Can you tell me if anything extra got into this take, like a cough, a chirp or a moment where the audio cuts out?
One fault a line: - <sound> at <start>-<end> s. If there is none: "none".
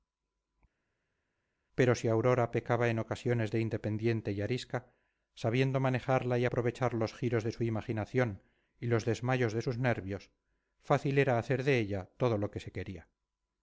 none